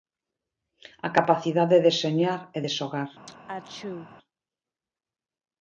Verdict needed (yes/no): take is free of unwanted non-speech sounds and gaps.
no